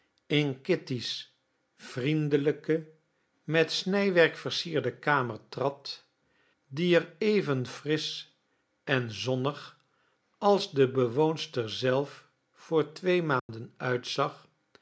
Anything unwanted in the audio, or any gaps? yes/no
yes